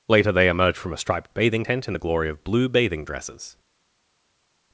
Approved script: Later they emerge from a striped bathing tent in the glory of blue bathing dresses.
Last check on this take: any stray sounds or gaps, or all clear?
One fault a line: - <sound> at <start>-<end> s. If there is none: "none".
none